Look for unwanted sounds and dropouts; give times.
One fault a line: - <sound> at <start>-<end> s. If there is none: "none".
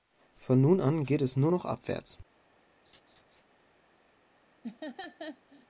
- laugh at 2.8-3.4 s
- laugh at 4.6-5.7 s